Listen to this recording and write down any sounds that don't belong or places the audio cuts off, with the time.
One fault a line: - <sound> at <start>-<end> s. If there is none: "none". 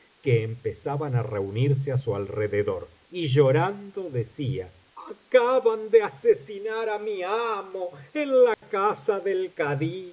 - dropout at 8.5-8.6 s